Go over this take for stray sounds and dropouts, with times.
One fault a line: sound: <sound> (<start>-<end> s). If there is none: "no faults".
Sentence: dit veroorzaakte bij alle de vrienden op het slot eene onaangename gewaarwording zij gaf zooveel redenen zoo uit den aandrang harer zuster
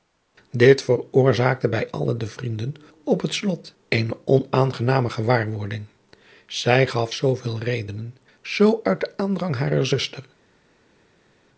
no faults